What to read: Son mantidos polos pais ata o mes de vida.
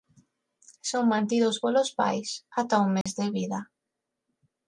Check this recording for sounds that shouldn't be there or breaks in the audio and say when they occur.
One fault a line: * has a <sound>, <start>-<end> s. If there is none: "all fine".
* has a dropout, 3.0-3.1 s